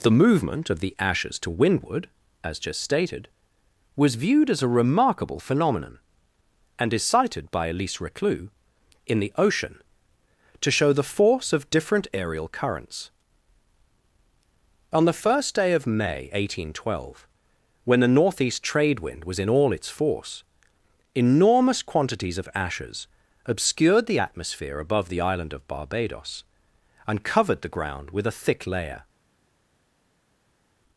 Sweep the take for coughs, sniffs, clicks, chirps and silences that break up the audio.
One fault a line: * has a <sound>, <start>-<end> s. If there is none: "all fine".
all fine